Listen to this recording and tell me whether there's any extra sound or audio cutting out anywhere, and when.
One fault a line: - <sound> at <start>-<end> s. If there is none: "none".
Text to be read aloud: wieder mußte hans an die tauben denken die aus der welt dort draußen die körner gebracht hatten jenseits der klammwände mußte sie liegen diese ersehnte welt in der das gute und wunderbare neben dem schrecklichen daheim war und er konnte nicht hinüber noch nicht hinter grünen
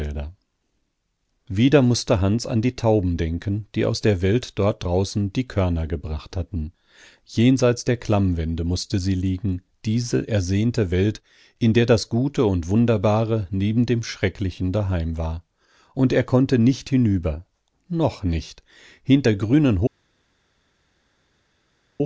none